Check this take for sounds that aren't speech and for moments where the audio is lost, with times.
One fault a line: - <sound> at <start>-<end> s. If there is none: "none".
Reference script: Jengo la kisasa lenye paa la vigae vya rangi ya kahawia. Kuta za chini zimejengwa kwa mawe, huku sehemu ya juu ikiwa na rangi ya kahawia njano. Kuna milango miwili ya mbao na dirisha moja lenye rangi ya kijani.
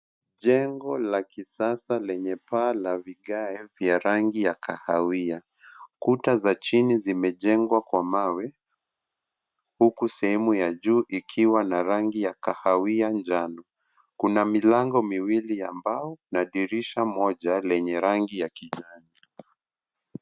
none